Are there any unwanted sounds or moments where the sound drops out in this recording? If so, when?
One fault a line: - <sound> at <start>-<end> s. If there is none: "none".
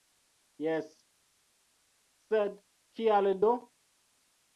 none